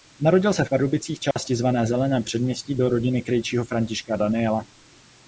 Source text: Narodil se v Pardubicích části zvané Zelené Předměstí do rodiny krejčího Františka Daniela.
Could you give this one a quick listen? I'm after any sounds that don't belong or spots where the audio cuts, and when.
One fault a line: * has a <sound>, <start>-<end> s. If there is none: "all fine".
* has a dropout, 1.3-1.4 s